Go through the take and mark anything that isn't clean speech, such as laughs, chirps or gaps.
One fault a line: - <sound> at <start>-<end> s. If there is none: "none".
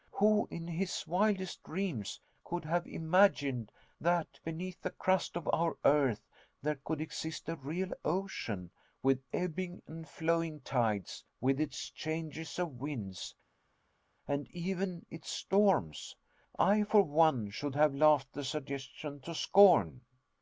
none